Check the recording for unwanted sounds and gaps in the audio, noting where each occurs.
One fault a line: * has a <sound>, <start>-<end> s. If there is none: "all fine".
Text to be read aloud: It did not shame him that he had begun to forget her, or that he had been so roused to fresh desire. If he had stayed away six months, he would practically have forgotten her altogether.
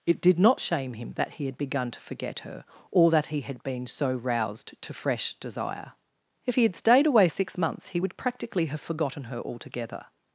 all fine